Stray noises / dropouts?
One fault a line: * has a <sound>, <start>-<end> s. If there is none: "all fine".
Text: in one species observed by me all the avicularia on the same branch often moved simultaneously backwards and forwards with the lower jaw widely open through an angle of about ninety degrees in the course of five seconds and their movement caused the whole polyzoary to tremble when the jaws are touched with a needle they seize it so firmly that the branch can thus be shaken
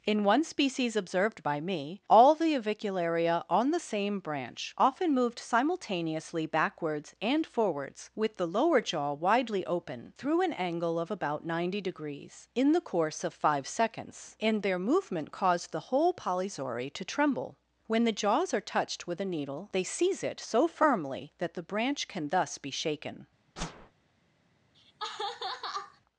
* has a whoosh, 23.6-23.9 s
* has a laugh, 24.7-26.0 s